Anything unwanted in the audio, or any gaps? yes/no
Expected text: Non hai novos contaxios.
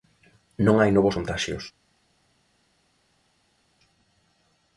no